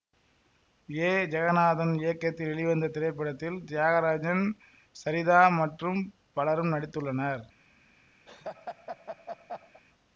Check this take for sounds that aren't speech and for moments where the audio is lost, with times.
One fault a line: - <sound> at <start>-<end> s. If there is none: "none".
- laugh at 8.3-9.8 s